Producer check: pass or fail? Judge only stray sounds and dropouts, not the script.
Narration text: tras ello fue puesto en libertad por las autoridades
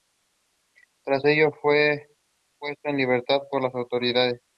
pass